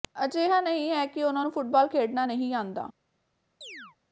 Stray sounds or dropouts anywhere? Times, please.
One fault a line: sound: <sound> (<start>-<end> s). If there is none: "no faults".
sound: chirp (3.6-4.0 s)